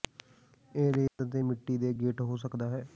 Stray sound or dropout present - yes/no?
yes